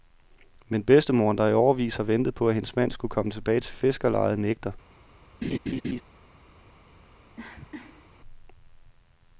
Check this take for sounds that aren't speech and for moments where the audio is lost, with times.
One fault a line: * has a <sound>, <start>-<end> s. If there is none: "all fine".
* has a laugh, 5.4-6.0 s
* has a cough, 7.4-8.1 s